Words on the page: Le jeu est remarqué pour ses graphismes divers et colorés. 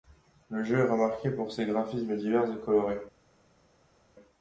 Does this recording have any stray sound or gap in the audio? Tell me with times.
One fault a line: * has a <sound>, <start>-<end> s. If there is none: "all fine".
all fine